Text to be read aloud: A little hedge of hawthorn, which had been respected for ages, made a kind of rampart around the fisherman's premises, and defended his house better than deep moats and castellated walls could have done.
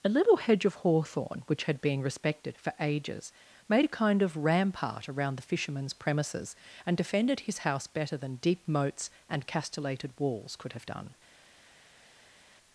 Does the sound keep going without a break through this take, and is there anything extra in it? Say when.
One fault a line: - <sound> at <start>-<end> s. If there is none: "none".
none